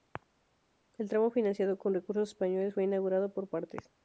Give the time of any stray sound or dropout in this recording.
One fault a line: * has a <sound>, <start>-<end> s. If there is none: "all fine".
all fine